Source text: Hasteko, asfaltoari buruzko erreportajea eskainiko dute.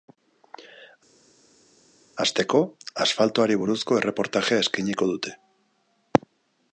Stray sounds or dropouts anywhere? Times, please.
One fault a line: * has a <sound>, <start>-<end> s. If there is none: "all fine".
all fine